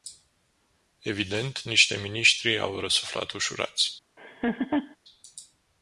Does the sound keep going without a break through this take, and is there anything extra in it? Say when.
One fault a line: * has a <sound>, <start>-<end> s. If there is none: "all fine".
* has a laugh, 4.2-5.0 s